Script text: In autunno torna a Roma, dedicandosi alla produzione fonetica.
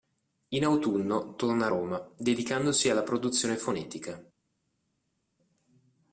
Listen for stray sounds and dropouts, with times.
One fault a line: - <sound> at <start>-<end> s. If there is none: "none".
none